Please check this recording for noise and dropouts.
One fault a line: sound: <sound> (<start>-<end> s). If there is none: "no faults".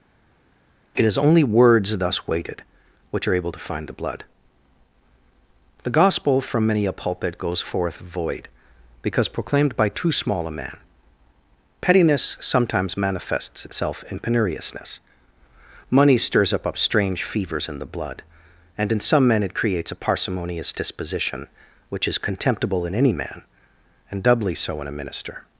no faults